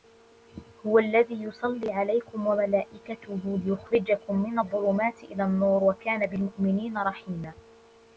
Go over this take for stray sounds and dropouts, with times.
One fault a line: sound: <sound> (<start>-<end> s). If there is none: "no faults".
no faults